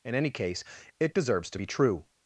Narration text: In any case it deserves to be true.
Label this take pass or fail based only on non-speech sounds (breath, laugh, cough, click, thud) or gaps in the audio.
pass